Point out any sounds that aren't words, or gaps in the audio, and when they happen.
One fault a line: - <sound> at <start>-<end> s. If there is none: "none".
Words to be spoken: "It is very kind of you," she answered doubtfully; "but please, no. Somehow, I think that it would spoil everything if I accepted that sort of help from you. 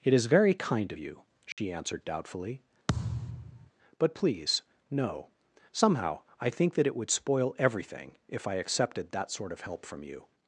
- dropout at 1.5-1.6 s
- thud at 2.9-3.7 s